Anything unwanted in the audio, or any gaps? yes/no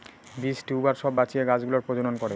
no